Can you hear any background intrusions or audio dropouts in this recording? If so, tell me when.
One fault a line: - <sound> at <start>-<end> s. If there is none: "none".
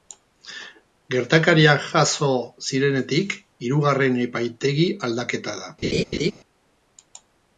- laugh at 5.8-6.3 s